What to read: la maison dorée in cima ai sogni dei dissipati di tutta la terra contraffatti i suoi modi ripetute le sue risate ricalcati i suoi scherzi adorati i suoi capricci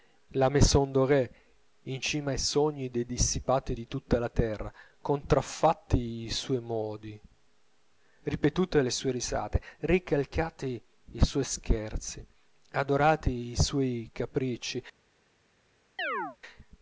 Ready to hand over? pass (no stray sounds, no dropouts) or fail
fail